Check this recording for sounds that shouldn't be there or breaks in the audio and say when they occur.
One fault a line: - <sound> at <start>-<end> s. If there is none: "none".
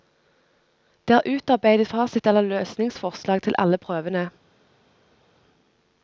none